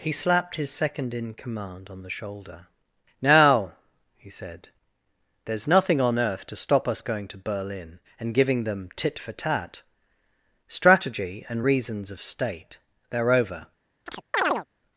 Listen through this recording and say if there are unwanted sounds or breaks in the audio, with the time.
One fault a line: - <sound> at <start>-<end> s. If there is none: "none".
- chirp at 14.1-14.7 s